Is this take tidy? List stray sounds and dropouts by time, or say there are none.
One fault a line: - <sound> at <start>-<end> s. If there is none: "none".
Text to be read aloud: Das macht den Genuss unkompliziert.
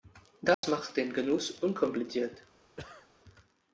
- dropout at 0.5-0.6 s
- cough at 2.8-3.1 s